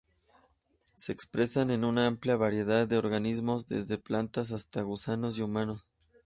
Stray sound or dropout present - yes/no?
no